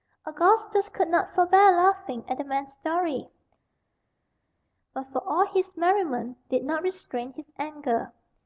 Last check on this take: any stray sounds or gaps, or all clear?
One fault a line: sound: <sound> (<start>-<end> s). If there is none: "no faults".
no faults